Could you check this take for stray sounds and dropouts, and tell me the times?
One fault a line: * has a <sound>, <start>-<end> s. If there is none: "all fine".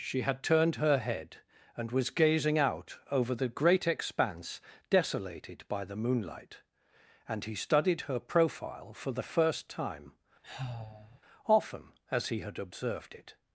* has a sigh, 10.4-11.2 s